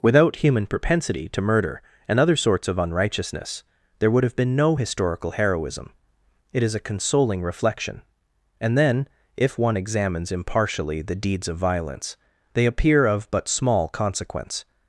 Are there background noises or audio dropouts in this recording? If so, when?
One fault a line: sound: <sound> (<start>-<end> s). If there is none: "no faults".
no faults